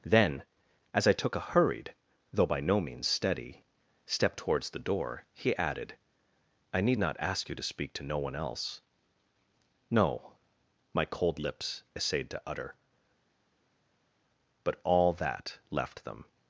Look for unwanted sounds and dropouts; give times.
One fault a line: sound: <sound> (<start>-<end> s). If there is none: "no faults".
no faults